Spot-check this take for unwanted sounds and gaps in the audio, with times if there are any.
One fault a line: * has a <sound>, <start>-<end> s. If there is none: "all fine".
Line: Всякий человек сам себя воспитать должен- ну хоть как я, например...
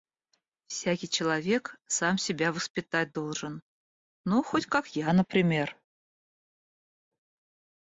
all fine